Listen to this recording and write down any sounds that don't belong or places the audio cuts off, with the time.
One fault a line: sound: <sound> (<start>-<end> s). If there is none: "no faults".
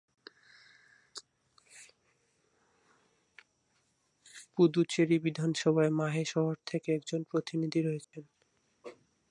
sound: dropout (8.0-8.1 s)